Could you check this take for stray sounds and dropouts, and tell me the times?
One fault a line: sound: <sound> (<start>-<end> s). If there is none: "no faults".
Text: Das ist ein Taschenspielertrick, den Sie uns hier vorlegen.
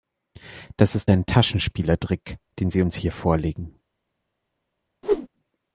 sound: whoosh (5.0-5.3 s)